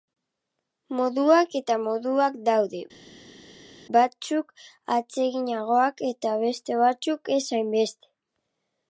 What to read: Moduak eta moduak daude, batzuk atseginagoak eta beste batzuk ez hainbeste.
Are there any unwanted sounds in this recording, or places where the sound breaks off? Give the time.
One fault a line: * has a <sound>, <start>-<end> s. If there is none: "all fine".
all fine